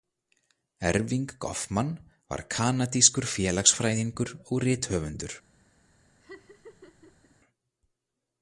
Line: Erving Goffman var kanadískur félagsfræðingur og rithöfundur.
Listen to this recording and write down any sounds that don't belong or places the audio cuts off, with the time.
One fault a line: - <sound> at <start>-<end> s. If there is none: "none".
- laugh at 6.2-7.4 s